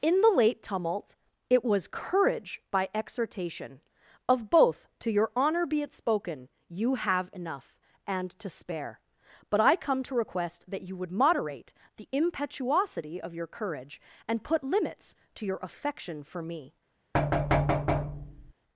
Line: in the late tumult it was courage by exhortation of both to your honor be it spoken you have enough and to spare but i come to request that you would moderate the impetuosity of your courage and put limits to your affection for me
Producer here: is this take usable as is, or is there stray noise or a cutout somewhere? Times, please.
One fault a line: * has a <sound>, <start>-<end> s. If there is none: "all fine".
* has a thud, 17.1-18.5 s